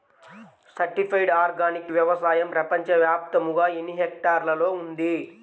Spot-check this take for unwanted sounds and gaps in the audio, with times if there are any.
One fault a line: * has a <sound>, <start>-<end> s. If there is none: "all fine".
all fine